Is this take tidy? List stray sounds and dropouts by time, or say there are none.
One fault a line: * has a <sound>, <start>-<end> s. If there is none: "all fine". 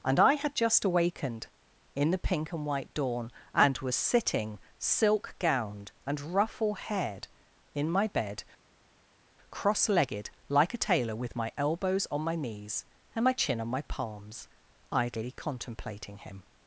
all fine